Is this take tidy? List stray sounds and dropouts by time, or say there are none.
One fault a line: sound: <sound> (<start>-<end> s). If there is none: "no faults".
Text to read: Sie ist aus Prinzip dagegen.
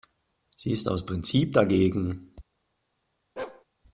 sound: bark (3.4-3.6 s)